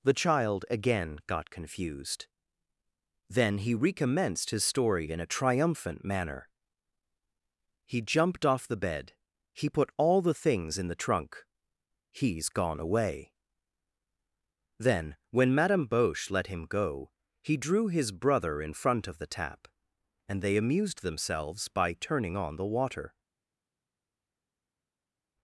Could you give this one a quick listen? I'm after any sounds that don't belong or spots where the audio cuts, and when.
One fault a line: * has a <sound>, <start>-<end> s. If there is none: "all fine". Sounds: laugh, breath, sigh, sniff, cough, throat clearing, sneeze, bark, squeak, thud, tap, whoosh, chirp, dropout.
all fine